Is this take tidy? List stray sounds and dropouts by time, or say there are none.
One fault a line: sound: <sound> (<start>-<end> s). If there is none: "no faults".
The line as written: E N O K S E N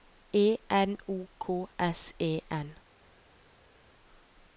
no faults